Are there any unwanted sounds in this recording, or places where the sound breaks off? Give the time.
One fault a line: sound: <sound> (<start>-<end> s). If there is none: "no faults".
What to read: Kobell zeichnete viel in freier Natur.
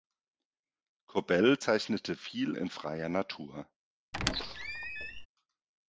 sound: squeak (4.1-5.3 s)